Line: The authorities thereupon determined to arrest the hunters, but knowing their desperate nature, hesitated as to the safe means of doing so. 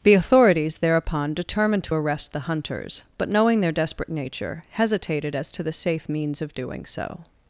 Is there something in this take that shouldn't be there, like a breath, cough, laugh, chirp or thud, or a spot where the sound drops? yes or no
no